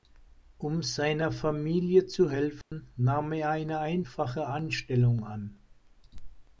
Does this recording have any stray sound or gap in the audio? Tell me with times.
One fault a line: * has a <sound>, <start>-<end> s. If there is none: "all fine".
* has a dropout, 2.6-2.7 s